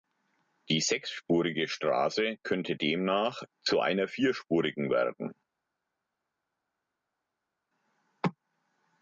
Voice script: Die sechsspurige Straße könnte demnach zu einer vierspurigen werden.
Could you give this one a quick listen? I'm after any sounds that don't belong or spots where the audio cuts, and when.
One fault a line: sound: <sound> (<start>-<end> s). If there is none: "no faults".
no faults